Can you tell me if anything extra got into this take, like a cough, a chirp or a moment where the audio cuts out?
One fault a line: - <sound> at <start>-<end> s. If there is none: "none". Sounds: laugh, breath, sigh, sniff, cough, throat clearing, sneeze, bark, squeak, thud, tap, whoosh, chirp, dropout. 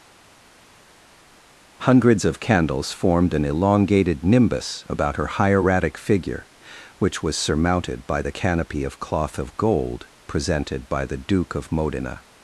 none